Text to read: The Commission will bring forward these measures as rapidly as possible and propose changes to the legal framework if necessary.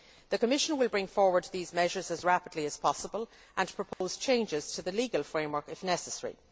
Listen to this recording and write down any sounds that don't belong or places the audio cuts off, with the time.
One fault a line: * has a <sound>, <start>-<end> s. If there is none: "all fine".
* has a dropout, 3.9-4.0 s